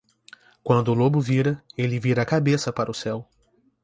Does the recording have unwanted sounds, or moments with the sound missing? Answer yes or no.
no